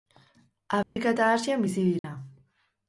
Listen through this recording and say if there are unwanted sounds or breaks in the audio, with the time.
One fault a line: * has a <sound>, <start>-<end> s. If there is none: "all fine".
* has a dropout, 0.8-1.0 s
* has a dropout, 2.0-2.0 s